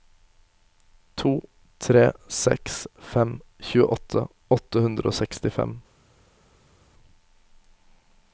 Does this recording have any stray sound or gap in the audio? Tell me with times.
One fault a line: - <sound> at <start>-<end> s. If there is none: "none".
none